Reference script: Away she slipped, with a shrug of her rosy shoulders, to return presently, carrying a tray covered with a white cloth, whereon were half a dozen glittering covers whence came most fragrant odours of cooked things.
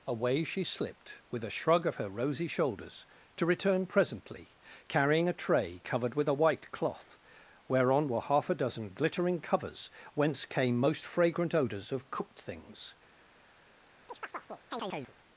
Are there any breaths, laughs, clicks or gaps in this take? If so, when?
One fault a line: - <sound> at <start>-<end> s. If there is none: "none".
- chirp at 14.1-15.1 s